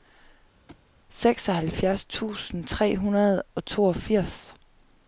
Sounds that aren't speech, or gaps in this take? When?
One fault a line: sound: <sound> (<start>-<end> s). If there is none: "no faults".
sound: thud (0.7-0.9 s)